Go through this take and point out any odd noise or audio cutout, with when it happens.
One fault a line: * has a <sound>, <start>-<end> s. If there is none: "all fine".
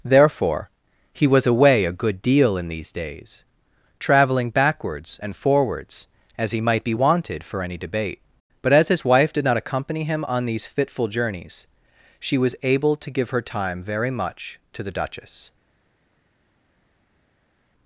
all fine